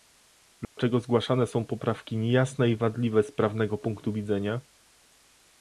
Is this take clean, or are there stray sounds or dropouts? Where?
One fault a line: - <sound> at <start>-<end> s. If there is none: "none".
- dropout at 0.6-0.8 s